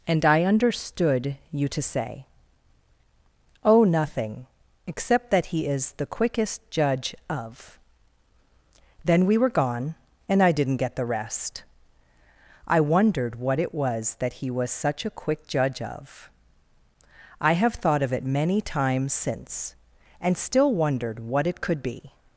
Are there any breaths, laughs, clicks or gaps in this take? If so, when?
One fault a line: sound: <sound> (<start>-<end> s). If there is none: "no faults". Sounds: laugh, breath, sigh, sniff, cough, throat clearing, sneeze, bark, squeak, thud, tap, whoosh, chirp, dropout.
no faults